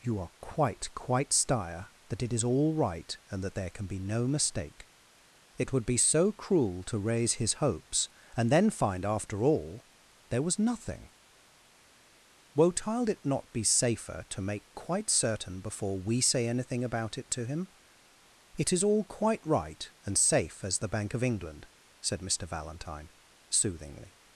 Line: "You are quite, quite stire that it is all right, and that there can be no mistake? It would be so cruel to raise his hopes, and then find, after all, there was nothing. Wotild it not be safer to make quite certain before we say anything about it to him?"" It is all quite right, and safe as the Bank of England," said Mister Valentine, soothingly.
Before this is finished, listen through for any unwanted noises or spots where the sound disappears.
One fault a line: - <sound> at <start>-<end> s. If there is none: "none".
none